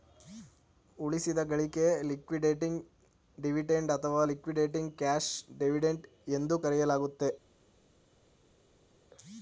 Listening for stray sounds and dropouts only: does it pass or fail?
pass